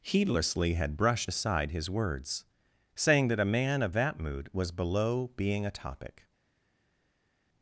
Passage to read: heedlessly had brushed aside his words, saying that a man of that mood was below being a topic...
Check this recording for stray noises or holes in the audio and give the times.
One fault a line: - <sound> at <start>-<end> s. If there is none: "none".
none